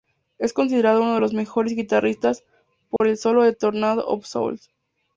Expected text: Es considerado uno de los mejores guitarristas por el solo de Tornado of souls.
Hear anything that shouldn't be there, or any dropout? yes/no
yes